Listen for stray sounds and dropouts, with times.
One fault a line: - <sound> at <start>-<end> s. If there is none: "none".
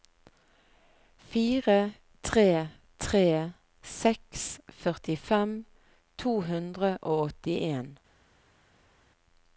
none